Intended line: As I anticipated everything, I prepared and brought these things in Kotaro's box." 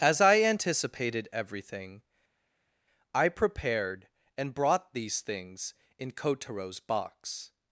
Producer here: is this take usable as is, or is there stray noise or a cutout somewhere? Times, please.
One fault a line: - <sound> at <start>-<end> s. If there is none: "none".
none